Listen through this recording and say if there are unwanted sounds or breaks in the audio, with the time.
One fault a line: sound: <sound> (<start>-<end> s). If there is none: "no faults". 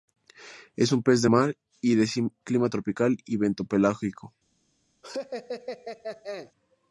sound: laugh (5.0-6.5 s)